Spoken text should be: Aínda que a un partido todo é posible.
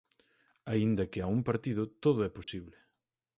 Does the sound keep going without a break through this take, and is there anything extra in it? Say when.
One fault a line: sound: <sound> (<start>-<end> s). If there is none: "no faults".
sound: dropout (2.4-2.5 s)